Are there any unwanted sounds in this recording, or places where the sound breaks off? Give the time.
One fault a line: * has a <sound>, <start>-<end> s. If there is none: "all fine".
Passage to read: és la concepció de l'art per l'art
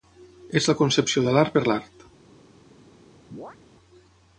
* has a chirp, 3.3-3.6 s